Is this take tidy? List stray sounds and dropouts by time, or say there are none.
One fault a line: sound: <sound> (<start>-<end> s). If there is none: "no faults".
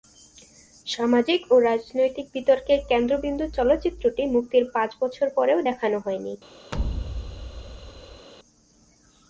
sound: thud (6.7-8.3 s)